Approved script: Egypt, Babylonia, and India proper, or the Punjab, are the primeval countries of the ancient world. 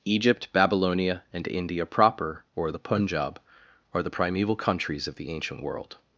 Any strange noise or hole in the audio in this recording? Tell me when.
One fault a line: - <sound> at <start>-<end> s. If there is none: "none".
none